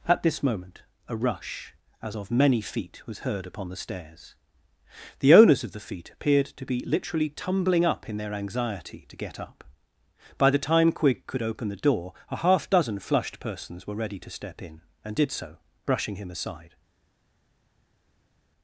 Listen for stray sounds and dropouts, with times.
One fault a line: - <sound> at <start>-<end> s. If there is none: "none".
none